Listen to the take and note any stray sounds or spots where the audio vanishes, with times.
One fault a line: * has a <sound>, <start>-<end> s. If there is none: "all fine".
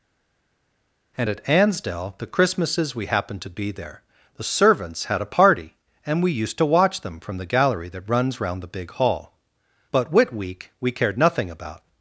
all fine